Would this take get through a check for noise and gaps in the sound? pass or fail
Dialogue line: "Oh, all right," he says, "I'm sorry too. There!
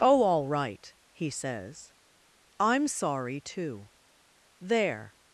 pass